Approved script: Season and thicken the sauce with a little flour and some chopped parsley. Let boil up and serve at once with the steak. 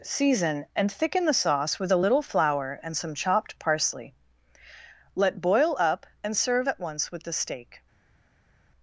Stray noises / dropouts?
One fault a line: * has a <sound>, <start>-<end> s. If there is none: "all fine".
all fine